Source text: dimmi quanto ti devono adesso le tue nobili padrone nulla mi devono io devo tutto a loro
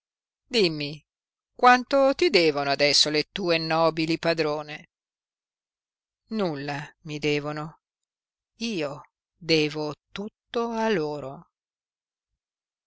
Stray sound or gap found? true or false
false